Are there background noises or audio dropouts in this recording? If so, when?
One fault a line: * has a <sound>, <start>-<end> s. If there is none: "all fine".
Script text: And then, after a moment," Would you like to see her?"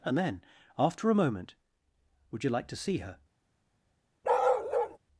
* has a bark, 4.2-5.0 s